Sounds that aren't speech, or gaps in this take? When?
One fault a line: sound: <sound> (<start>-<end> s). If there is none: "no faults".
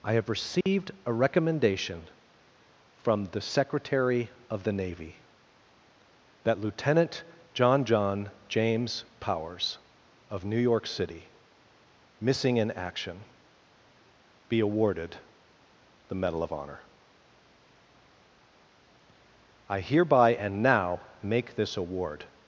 sound: dropout (0.6-0.7 s)